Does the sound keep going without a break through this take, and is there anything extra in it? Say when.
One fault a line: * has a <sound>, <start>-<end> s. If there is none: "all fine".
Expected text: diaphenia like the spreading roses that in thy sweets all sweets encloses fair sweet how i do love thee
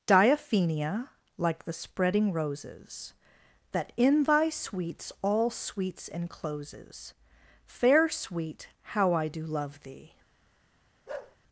* has a bark, 11.1-11.4 s